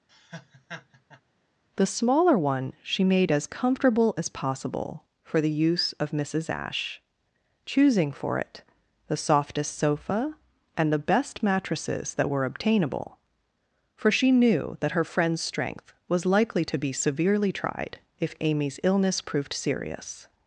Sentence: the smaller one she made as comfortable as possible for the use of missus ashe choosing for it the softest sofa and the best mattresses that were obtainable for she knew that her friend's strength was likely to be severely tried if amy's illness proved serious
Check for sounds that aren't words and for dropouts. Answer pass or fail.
fail